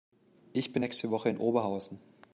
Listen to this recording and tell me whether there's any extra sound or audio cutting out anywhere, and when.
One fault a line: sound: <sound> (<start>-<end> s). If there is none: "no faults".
no faults